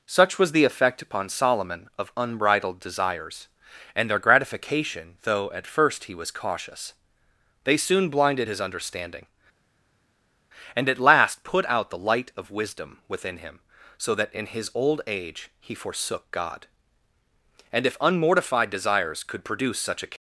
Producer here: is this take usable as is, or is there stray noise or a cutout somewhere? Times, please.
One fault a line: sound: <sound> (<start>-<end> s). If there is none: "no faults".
no faults